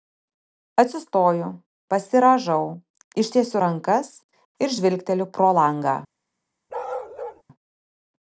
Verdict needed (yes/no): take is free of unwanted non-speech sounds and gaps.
no